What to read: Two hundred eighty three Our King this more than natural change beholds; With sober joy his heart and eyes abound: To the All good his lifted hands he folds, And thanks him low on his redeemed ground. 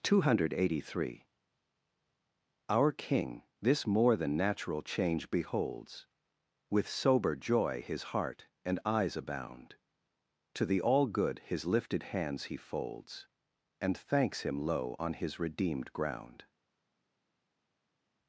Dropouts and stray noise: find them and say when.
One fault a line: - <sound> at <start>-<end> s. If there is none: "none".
none